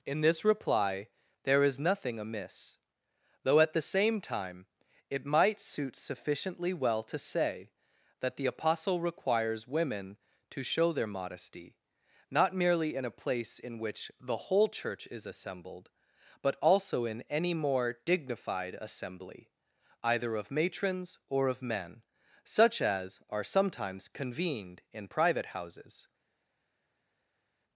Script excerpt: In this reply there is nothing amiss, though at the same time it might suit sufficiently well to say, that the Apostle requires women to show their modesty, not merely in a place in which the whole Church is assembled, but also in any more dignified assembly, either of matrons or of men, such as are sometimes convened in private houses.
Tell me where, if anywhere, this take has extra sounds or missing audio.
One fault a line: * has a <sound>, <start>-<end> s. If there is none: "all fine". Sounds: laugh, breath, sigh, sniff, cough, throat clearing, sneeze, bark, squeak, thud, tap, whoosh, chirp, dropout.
all fine